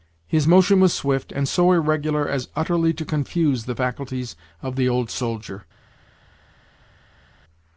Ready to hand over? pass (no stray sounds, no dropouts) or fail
pass